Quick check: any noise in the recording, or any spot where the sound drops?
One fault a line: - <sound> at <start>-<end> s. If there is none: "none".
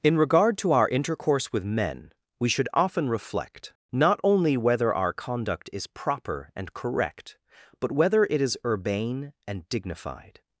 none